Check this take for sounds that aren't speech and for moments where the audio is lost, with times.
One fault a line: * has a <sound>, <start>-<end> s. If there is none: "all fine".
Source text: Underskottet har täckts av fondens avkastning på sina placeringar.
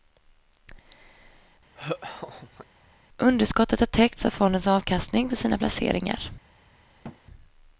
* has a laugh, 1.8-2.7 s
* has a thud, 7.0-7.2 s